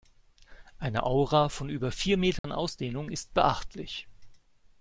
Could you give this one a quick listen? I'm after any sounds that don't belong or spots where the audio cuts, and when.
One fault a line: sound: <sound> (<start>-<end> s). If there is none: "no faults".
sound: dropout (2.4-2.4 s)